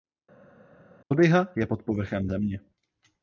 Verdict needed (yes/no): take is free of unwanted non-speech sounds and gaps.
yes